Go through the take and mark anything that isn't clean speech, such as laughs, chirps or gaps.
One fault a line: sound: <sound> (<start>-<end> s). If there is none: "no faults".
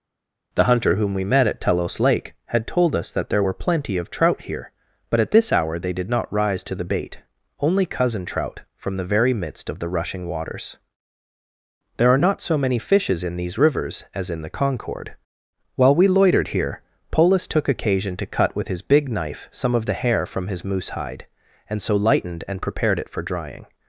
no faults